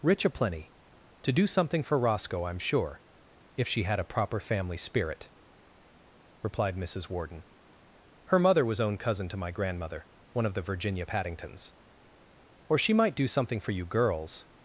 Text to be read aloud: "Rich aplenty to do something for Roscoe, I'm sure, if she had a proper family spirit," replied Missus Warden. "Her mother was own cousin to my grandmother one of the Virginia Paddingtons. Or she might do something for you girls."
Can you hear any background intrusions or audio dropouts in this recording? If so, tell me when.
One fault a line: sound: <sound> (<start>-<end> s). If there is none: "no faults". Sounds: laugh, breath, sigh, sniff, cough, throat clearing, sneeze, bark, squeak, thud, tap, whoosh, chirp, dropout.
no faults